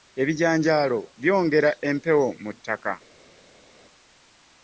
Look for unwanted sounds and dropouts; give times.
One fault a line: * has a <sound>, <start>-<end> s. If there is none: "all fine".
all fine